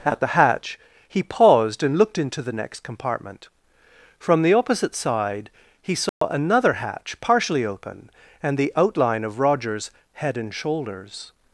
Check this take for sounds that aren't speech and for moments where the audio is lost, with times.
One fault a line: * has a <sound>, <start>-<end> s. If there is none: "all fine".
* has a dropout, 6.1-6.2 s